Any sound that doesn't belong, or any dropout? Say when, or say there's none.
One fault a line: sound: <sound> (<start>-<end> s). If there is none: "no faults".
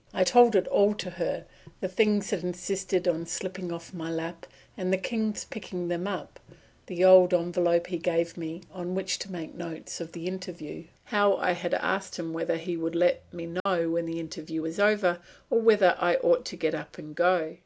sound: dropout (13.6-13.7 s)